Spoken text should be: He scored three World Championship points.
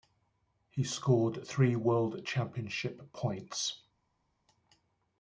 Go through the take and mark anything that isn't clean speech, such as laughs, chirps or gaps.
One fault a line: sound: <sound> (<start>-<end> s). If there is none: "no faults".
no faults